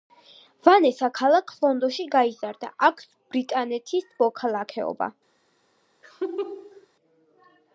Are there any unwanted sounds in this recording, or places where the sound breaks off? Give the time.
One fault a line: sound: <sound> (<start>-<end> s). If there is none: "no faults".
sound: laugh (6.0-6.9 s)